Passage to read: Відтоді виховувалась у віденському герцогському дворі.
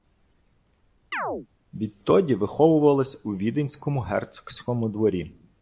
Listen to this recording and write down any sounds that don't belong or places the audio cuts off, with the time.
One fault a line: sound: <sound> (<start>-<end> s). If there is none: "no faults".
sound: chirp (1.1-1.5 s)